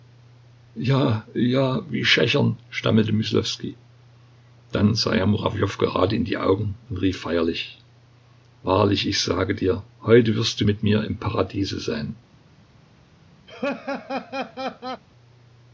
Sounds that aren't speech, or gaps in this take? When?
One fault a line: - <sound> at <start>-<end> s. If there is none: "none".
- laugh at 13.5-15.0 s